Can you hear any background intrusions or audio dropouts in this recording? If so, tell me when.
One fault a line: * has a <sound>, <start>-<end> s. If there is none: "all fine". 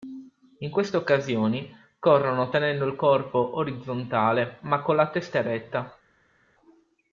all fine